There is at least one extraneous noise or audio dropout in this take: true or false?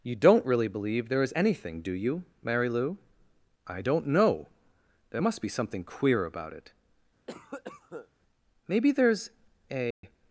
true